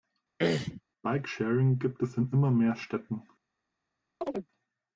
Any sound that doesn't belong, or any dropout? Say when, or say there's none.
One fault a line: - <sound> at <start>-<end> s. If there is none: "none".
- throat clearing at 0.4-0.8 s
- chirp at 4.2-4.5 s